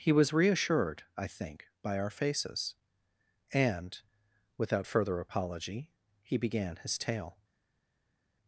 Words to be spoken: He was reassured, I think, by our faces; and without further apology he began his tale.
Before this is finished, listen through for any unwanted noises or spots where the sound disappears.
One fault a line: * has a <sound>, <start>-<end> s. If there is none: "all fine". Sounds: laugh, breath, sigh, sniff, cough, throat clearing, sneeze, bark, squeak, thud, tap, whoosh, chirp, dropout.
all fine